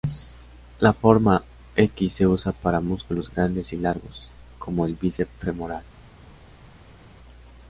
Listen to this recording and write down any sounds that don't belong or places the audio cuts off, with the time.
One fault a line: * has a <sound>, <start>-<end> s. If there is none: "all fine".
all fine